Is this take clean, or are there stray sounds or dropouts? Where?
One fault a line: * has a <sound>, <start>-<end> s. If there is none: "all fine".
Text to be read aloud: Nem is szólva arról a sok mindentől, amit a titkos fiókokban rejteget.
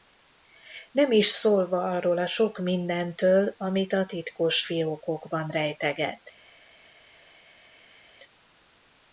all fine